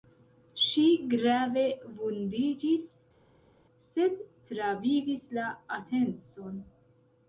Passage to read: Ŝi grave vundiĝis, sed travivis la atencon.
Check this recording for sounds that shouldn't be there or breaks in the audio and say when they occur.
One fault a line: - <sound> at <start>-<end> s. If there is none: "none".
none